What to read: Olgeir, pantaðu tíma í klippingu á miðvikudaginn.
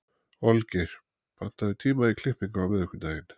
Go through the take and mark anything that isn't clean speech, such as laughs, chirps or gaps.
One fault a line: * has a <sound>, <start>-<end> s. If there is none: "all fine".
all fine